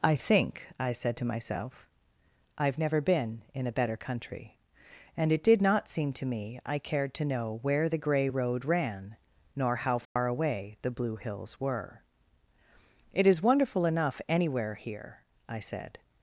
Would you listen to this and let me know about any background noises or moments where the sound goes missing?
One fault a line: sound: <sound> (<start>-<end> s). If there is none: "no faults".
sound: dropout (10.0-10.2 s)